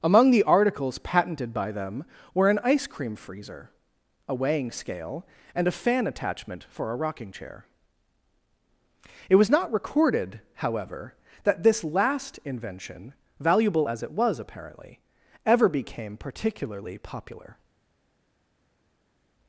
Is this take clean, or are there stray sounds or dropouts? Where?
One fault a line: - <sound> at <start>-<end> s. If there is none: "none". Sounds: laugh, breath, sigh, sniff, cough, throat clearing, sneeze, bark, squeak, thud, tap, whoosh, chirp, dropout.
none